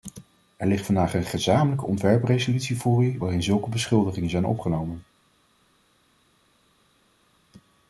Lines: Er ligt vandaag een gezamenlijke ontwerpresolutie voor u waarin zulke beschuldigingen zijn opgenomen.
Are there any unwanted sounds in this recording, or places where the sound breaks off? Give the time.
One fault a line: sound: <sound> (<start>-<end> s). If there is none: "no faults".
no faults